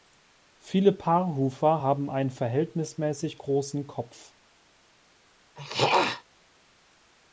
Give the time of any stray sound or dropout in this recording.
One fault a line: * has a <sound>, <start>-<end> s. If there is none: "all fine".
* has a throat clearing, 5.6-6.2 s